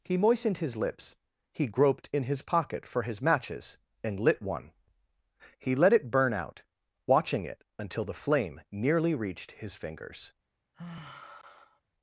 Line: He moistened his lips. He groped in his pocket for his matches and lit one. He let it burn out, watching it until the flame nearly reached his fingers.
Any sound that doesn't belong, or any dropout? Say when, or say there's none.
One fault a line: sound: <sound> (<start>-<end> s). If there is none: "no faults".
sound: sigh (10.7-11.8 s)